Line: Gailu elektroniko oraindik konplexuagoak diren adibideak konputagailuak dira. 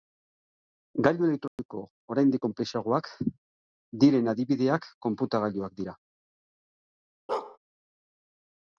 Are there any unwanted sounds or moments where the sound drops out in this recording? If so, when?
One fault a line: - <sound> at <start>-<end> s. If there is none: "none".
- dropout at 1.5-1.6 s
- bark at 7.3-7.6 s